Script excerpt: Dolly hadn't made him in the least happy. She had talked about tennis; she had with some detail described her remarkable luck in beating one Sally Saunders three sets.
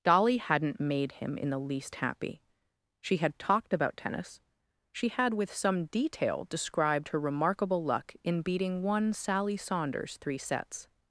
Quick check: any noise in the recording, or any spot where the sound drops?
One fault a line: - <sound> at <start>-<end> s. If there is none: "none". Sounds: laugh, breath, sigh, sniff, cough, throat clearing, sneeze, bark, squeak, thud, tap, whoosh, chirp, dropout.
none